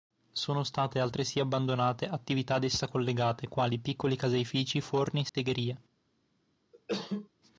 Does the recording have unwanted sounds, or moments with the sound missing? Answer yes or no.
yes